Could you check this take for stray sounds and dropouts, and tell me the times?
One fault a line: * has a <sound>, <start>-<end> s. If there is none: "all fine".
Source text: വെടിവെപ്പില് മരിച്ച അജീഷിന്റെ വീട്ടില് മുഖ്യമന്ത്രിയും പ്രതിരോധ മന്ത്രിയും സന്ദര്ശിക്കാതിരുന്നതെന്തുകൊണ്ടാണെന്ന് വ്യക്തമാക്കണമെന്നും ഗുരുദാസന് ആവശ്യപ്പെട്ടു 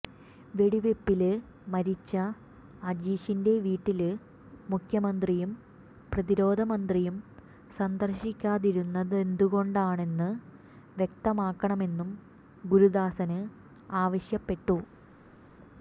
all fine